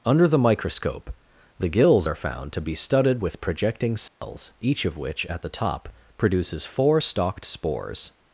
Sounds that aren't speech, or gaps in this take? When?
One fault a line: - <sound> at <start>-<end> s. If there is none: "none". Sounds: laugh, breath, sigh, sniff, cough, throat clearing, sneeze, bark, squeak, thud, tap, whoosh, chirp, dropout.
- dropout at 4.1-4.2 s